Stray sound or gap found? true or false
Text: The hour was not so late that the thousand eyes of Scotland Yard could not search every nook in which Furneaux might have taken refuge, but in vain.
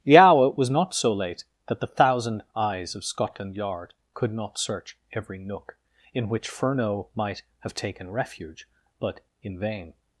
false